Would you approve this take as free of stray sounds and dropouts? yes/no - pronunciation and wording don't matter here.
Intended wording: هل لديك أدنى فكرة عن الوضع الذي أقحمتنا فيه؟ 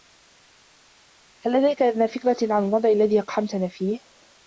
yes